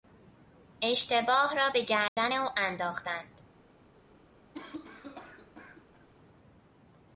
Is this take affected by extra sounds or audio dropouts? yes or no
yes